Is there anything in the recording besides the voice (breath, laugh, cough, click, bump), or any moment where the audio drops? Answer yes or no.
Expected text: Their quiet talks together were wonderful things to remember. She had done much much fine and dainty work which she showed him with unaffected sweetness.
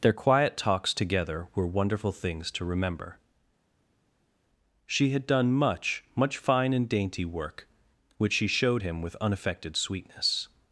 no